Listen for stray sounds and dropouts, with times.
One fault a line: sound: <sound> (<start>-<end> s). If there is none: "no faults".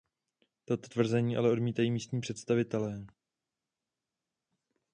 no faults